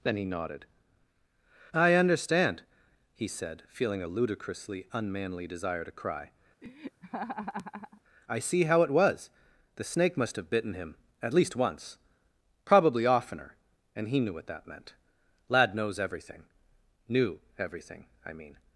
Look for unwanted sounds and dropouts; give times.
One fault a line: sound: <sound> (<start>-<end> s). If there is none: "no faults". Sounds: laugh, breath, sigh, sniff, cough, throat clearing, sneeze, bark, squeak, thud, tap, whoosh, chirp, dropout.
sound: laugh (6.6-8.0 s)